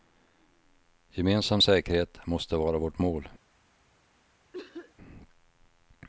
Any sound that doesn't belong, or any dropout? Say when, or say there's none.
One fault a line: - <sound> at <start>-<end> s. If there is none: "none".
- cough at 4.5-5.0 s